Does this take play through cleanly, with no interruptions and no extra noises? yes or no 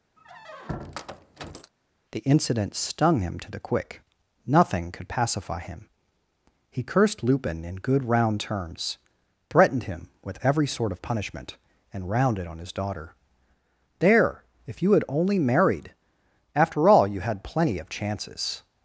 no